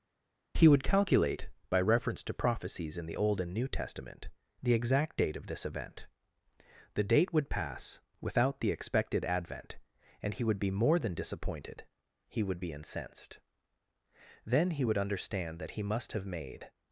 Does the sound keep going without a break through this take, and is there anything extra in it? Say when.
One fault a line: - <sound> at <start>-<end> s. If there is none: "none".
none